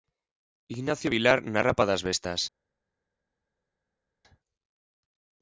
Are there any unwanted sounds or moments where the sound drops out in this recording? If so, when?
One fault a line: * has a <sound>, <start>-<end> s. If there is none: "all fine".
all fine